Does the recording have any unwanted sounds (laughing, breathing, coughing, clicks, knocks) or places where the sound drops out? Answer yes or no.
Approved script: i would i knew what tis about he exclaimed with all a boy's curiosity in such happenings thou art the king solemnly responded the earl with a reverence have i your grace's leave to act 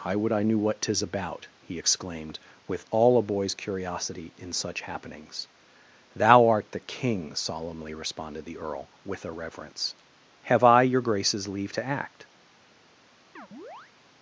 yes